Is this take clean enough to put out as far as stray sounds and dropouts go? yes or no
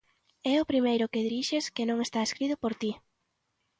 yes